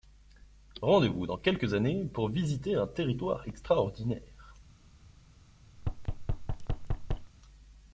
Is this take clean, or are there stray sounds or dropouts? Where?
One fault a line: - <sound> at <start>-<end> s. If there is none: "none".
- thud at 5.8-7.3 s